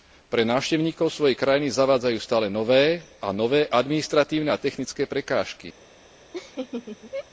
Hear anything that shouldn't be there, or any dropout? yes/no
yes